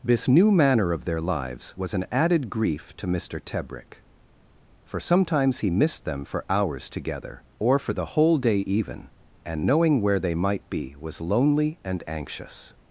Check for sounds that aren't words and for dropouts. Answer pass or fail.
pass